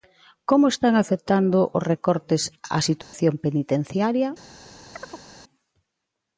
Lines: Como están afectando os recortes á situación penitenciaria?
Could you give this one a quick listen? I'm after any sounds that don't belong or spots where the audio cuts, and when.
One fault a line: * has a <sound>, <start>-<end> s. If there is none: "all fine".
* has a dropout, 3.0-3.1 s
* has a chirp, 4.9-5.3 s